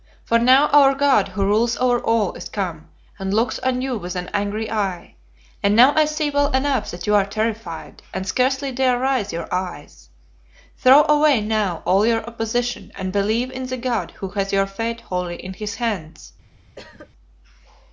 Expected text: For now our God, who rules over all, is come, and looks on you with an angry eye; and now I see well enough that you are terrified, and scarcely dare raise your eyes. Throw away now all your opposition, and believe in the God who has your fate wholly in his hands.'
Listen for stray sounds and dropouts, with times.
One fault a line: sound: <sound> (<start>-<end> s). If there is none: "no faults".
sound: cough (16.8-17.1 s)